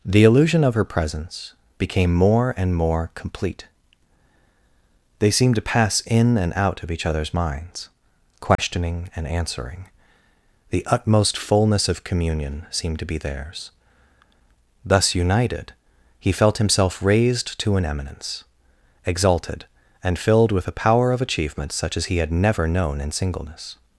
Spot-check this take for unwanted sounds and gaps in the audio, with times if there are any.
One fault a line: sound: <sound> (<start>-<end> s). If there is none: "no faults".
sound: dropout (8.5-8.6 s)